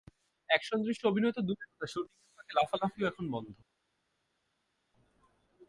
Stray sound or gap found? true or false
false